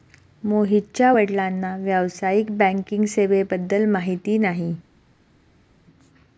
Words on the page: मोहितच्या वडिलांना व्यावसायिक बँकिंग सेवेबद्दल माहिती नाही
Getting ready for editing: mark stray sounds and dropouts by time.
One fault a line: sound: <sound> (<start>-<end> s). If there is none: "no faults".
no faults